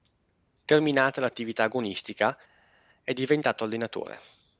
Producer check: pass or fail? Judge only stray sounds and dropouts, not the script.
pass